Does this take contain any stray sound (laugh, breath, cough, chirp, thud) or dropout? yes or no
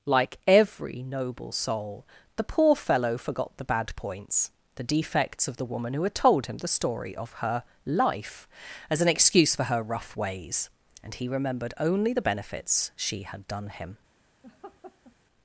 yes